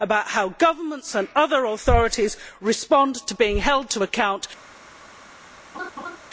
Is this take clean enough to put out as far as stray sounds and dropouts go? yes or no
no